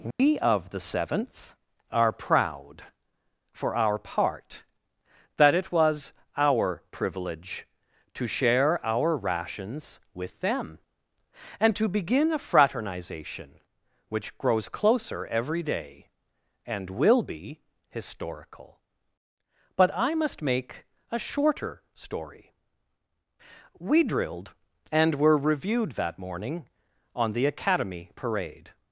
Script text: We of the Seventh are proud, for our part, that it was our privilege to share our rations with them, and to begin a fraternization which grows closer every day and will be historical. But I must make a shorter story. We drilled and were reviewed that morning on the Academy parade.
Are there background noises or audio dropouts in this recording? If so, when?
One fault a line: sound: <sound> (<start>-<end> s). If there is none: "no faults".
sound: dropout (0.1-0.2 s)